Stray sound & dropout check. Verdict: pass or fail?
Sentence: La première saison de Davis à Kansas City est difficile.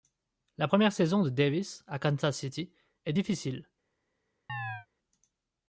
fail